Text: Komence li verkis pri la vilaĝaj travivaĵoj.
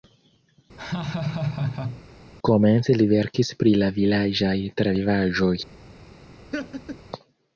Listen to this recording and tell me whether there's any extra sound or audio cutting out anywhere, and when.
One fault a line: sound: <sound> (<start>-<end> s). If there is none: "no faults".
sound: laugh (0.8-2.0 s)
sound: laugh (6.5-7.0 s)